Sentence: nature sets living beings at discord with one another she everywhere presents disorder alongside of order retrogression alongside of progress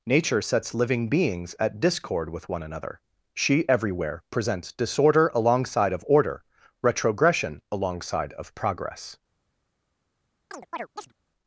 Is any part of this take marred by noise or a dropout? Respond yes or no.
yes